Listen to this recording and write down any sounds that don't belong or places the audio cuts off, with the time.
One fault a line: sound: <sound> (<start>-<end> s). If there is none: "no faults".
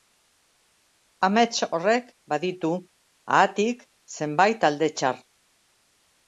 no faults